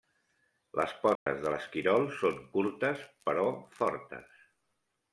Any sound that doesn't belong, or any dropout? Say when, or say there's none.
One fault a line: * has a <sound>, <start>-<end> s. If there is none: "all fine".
* has a dropout, 1.2-1.3 s